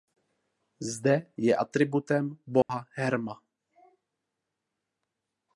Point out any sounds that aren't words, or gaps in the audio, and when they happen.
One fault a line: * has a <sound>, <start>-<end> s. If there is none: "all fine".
* has a dropout, 2.6-2.7 s